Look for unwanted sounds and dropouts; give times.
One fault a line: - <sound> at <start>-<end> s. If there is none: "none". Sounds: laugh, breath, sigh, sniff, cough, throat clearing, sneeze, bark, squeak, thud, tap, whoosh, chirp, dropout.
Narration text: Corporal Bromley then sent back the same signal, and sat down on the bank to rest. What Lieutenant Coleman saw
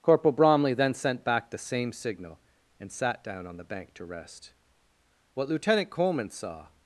none